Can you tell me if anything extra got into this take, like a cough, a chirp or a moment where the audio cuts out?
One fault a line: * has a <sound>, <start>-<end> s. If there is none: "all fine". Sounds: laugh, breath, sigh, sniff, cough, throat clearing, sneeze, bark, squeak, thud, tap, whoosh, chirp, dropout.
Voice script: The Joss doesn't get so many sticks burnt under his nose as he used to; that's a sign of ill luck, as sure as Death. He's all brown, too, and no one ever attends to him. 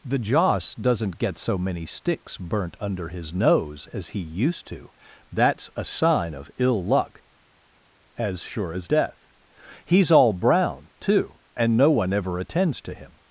all fine